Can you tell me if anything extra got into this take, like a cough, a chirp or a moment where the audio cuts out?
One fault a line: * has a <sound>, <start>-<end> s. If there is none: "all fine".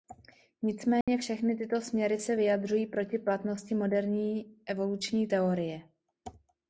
* has a dropout, 1.0-1.1 s